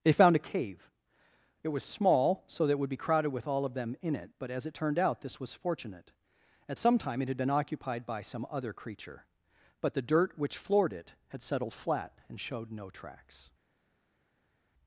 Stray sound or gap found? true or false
false